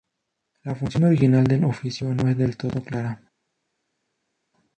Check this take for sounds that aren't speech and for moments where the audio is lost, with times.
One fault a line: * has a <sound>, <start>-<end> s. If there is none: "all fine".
all fine